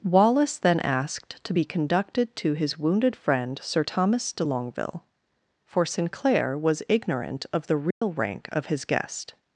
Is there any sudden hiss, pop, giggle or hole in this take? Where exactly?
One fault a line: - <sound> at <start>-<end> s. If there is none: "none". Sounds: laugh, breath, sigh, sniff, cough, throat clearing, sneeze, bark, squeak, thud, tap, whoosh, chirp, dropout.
- dropout at 7.9-8.0 s